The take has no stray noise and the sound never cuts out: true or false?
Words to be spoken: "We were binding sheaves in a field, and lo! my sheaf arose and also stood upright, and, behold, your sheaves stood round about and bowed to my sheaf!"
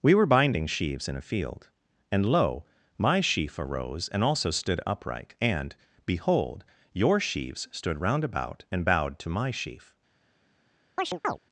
false